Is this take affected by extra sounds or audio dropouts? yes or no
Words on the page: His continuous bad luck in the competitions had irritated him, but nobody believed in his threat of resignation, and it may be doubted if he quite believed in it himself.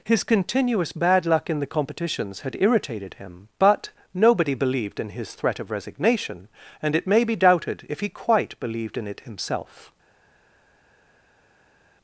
no